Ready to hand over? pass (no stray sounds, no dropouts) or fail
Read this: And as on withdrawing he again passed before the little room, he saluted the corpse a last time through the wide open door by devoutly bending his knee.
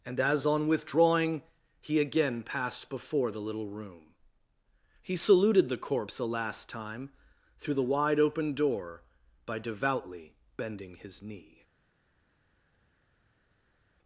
pass